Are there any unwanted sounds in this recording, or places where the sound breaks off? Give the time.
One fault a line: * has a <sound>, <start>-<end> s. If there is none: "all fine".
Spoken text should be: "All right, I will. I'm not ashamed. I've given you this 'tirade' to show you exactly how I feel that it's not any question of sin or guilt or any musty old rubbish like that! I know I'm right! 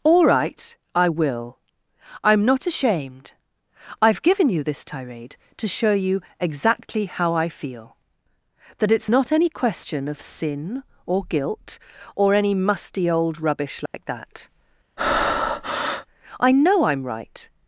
* has a dropout, 13.9-13.9 s
* has a breath, 15.0-16.1 s